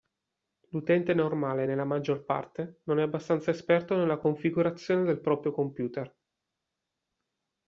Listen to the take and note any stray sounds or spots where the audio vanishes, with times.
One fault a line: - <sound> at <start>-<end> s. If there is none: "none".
none